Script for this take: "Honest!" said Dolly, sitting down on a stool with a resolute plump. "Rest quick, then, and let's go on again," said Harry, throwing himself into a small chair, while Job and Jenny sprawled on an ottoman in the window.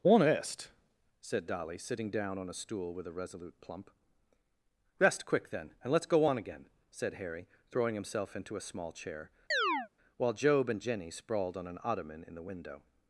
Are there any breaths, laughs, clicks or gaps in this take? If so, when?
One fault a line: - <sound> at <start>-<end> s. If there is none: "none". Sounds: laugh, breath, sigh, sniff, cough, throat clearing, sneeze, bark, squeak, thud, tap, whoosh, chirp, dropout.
- chirp at 9.5-9.9 s